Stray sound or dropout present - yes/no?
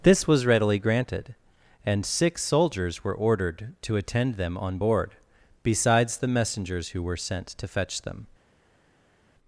no